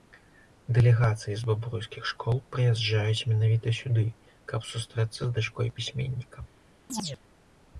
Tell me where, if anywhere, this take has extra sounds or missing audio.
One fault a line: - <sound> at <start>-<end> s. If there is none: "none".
- chirp at 6.9-7.2 s